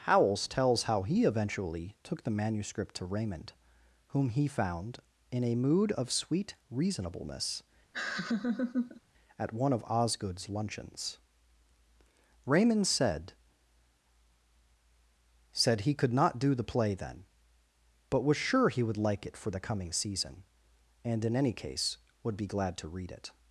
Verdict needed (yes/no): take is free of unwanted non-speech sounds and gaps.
no